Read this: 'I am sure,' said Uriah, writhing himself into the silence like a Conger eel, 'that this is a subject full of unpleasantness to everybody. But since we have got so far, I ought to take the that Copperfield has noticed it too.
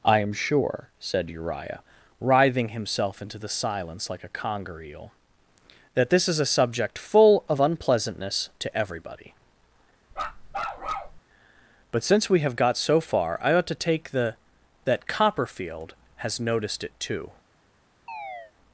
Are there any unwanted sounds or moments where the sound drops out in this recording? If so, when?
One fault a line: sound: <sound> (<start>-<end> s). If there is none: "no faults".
sound: bark (10.1-11.2 s)
sound: chirp (18.1-18.5 s)